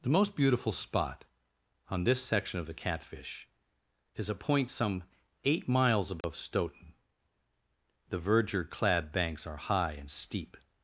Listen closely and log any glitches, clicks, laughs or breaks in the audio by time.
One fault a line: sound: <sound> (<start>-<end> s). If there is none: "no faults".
sound: dropout (6.2-6.2 s)